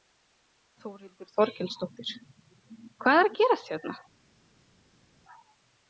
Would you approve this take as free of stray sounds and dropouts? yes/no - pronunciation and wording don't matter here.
yes